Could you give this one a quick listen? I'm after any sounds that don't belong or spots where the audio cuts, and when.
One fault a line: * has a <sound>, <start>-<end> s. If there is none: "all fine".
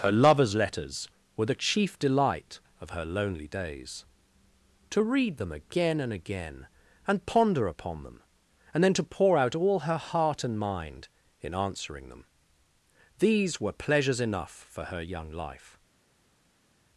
all fine